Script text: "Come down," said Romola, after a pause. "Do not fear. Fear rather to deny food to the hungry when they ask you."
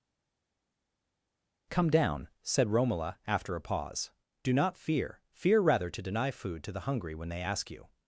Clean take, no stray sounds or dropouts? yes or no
yes